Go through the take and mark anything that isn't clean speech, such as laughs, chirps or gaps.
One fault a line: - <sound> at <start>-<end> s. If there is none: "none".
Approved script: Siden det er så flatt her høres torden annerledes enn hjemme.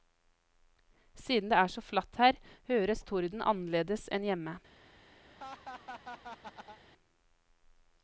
- laugh at 5.2-6.8 s